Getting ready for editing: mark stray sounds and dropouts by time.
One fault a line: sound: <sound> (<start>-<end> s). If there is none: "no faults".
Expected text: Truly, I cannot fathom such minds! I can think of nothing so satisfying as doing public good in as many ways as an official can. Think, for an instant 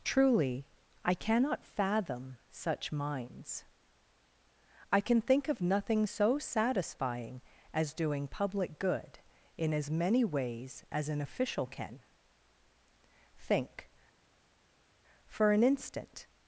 no faults